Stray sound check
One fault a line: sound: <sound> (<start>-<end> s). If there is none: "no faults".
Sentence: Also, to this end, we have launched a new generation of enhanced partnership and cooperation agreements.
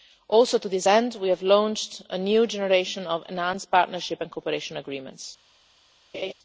sound: laugh (6.1-6.3 s)